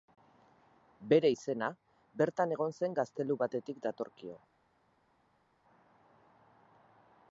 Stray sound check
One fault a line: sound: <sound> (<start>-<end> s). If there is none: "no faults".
no faults